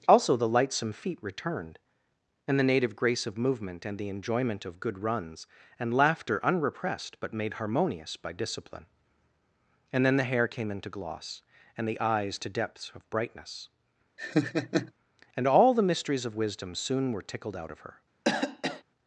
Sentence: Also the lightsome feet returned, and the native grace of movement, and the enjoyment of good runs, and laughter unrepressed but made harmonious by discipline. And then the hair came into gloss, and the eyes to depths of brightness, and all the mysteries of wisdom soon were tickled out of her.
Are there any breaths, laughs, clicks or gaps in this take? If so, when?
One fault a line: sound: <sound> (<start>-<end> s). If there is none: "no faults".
sound: laugh (14.2-14.9 s)
sound: cough (18.2-18.8 s)